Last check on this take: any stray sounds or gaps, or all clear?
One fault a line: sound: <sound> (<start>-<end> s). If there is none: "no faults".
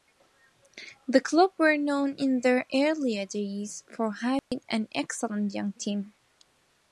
sound: dropout (4.4-4.5 s)